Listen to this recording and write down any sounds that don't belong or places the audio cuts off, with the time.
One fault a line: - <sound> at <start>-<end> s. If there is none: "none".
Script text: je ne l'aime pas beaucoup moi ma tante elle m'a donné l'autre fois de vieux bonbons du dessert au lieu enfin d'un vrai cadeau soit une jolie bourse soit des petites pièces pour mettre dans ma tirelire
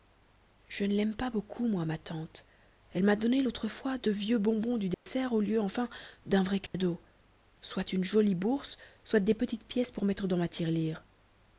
- dropout at 4.9-5.1 s
- dropout at 6.7-6.7 s